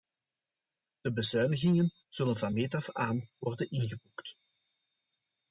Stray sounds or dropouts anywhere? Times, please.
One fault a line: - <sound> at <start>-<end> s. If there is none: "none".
none